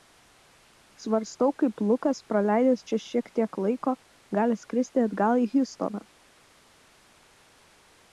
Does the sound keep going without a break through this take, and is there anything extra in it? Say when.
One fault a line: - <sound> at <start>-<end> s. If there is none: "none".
none